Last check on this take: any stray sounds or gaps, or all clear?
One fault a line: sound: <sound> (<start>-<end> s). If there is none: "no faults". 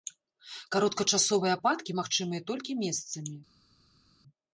no faults